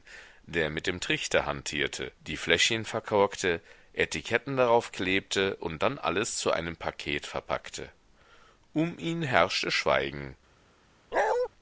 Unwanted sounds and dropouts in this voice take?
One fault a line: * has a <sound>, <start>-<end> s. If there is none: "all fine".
* has a bark, 11.1-11.5 s